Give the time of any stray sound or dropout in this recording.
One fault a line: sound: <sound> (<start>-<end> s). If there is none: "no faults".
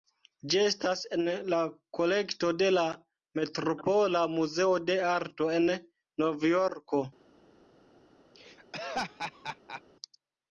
sound: laugh (8.3-9.8 s)